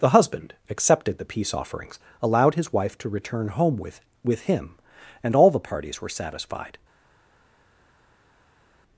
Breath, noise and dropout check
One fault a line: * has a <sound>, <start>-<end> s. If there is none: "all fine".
all fine